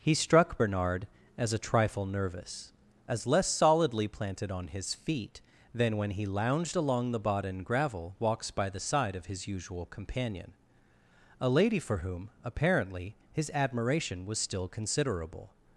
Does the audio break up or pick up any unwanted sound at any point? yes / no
no